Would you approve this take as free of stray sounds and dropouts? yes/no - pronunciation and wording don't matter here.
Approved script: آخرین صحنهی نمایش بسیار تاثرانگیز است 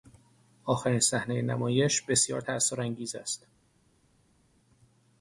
yes